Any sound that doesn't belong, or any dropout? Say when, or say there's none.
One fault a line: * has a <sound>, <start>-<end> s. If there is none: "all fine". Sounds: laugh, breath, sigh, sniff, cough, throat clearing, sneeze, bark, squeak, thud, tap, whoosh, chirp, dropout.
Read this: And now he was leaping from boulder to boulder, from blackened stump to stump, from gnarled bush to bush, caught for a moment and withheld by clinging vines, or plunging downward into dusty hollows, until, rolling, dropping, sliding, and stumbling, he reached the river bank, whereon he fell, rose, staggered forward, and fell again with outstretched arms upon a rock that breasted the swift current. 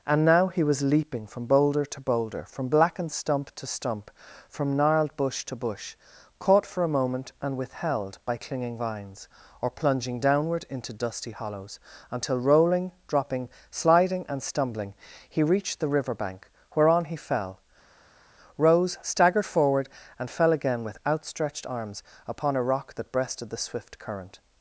all fine